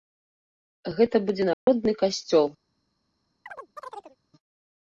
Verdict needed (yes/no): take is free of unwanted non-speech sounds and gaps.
no